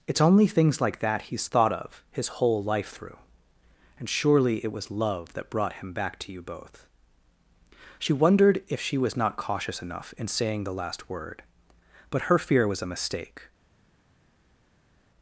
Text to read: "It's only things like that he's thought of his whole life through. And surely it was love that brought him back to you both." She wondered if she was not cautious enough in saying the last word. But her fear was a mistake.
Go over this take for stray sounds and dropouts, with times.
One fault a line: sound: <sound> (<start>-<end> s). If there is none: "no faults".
no faults